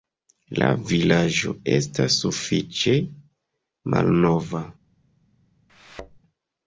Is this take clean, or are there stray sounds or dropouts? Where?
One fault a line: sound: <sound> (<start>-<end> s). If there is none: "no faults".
sound: thud (5.7-6.2 s)